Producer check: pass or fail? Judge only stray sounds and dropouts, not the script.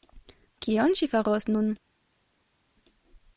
pass